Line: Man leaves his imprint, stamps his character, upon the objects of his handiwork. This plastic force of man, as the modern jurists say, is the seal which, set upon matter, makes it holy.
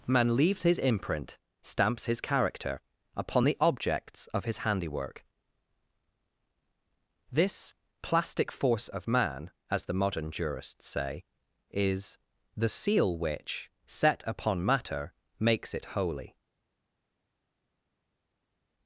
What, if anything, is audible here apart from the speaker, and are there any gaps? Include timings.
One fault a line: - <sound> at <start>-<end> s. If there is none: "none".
none